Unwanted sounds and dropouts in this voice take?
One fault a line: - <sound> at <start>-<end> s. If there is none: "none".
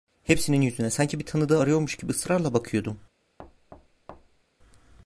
- thud at 3.4-4.4 s